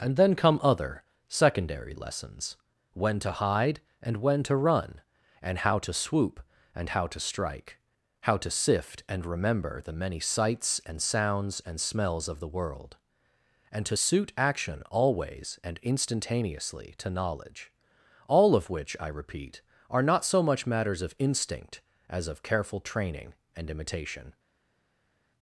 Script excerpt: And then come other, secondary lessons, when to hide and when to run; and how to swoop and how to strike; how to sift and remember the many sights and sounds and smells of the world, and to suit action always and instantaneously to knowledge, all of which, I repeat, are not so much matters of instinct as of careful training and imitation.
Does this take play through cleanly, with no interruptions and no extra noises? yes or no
yes